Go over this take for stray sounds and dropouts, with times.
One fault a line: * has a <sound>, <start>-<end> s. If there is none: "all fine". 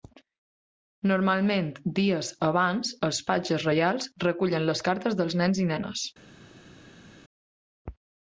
all fine